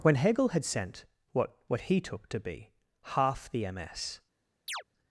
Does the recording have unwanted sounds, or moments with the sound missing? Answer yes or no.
yes